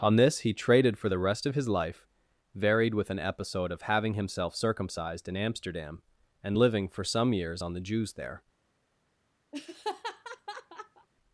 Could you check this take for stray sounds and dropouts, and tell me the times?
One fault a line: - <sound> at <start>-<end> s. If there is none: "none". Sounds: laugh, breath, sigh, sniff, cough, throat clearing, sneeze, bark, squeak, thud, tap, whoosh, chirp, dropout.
- laugh at 9.5-11.1 s